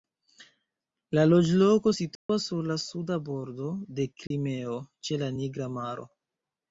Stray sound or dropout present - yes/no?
yes